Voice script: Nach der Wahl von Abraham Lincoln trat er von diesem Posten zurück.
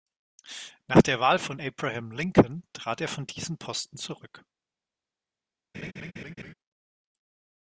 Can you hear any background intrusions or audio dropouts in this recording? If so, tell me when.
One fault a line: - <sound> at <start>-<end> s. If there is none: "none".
- laugh at 5.7-6.5 s